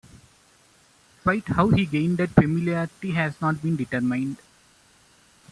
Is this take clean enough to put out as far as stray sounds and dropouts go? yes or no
yes